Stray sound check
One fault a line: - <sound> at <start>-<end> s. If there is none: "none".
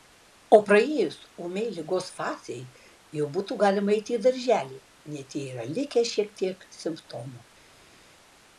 none